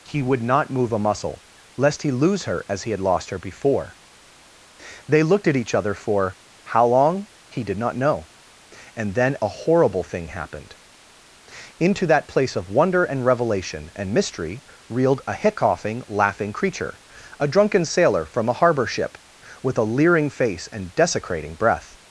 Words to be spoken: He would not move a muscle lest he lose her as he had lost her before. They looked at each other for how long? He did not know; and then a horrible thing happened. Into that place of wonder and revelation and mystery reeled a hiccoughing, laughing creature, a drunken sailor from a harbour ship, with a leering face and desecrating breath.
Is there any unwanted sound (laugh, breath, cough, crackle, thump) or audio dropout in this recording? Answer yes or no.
no